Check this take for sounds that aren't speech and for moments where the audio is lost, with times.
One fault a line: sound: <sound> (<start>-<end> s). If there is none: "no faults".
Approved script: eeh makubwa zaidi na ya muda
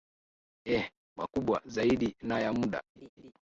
sound: laugh (3.0-3.3 s)